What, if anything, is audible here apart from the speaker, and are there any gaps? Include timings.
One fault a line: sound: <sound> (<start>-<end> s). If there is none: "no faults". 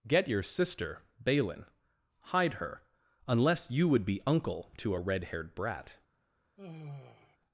sound: sigh (6.6-7.4 s)